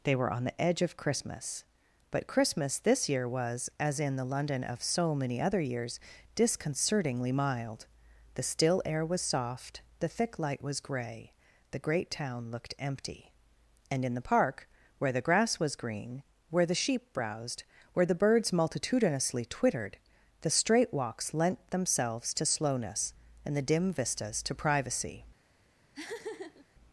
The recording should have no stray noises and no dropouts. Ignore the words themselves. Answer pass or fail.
fail